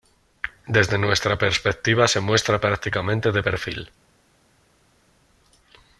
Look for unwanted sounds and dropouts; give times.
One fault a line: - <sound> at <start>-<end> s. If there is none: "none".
none